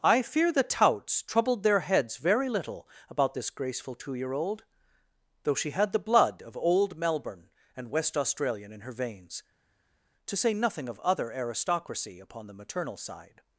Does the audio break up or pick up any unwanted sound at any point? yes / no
no